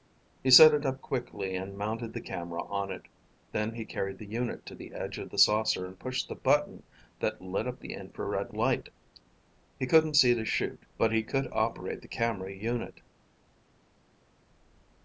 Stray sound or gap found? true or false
false